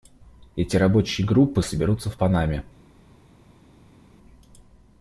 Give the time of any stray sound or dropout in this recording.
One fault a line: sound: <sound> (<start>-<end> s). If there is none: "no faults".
no faults